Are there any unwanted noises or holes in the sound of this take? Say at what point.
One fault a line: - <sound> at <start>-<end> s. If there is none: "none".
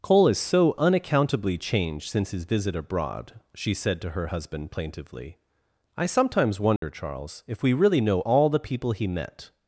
- dropout at 6.8-6.8 s